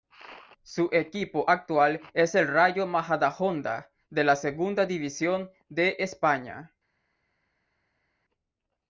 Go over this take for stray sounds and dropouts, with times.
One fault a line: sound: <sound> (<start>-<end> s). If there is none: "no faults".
no faults